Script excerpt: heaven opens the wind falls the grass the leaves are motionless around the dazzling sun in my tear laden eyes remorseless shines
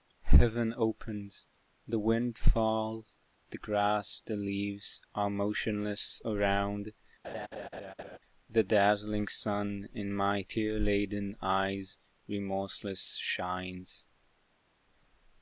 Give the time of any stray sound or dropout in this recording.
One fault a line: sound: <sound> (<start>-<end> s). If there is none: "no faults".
sound: laugh (7.2-8.2 s)